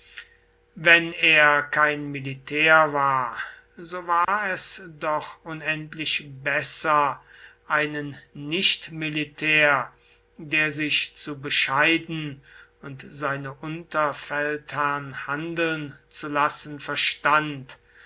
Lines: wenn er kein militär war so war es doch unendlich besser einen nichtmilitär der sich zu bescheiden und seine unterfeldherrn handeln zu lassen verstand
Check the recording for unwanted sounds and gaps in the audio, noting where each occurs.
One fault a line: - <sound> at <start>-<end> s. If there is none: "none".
- dropout at 4.2-4.3 s